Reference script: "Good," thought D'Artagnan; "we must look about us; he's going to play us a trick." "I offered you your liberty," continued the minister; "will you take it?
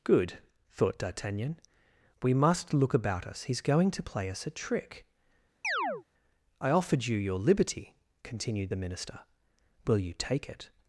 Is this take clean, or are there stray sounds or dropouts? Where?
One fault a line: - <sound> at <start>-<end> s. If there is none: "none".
- chirp at 5.6-6.0 s